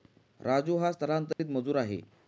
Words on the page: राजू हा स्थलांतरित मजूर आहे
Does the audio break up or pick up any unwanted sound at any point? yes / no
yes